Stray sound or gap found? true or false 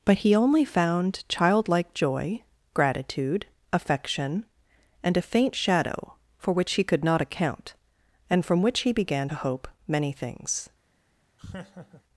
true